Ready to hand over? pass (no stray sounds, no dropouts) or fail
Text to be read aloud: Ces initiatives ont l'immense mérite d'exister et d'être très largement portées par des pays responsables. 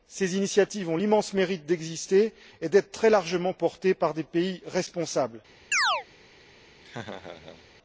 fail